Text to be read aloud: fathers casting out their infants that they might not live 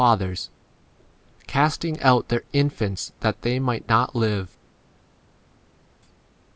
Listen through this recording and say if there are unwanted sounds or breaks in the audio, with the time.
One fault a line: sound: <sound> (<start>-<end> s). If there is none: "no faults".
no faults